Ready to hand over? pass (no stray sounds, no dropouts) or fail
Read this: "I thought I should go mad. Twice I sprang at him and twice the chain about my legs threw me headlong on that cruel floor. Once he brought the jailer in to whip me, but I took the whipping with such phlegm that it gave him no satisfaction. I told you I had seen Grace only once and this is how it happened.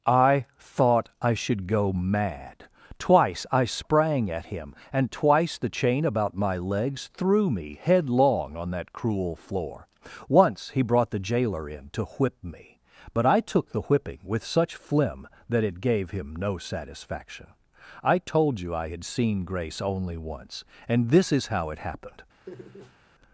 fail